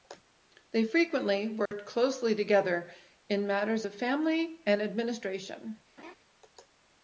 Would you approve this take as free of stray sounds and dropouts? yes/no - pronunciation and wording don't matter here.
no